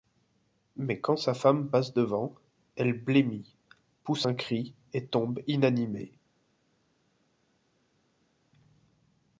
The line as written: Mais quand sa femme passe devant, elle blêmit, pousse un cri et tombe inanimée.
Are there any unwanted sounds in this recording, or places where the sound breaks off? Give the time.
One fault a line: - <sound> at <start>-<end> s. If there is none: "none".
none